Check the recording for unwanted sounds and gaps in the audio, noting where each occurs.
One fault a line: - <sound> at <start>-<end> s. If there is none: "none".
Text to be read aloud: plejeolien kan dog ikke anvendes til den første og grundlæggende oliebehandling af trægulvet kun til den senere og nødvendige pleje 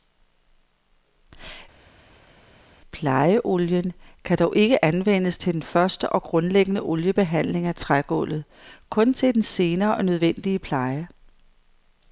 none